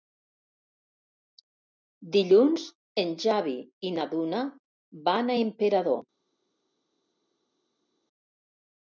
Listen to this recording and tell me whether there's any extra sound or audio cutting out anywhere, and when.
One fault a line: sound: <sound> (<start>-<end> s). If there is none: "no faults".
no faults